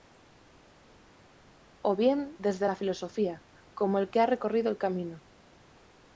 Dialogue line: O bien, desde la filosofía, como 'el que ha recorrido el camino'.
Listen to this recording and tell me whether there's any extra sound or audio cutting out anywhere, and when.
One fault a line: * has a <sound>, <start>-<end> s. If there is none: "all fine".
all fine